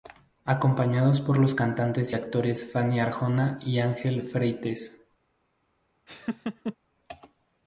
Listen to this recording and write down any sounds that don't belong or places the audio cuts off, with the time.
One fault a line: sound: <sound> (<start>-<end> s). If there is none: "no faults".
sound: laugh (6.1-6.8 s)